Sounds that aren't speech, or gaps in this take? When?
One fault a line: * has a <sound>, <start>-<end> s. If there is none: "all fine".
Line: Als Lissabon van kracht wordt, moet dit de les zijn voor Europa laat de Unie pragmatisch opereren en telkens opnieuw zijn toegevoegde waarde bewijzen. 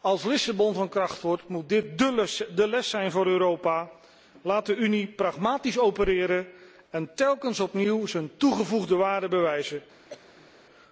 * has a cough, 10.1-10.5 s